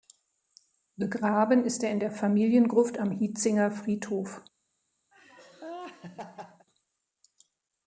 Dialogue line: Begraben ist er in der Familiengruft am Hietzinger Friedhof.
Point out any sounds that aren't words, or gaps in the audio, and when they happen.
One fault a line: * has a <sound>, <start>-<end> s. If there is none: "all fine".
* has a laugh, 5.1-6.7 s